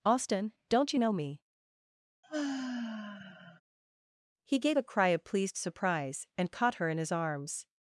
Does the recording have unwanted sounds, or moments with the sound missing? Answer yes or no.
yes